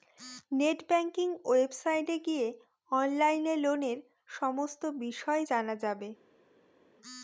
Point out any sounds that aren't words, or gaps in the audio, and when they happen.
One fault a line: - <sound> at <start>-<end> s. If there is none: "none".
none